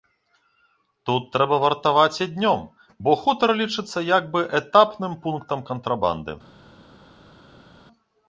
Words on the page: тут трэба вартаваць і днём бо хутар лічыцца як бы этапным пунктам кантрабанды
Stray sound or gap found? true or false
false